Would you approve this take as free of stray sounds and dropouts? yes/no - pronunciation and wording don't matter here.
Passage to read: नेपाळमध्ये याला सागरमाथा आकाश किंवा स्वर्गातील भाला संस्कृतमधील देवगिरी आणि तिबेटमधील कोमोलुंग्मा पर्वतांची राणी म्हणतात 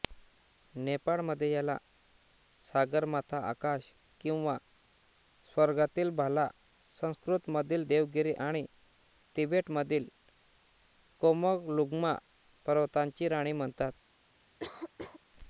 no